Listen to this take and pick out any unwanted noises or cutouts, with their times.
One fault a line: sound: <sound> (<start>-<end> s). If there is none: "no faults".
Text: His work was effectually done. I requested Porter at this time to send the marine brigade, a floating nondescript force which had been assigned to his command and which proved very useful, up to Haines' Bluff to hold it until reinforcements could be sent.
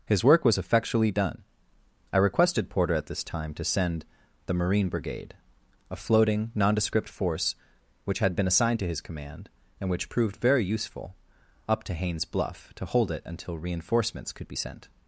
no faults